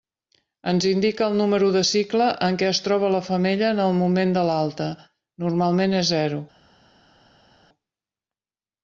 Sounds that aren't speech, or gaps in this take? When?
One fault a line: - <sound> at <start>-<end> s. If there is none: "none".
none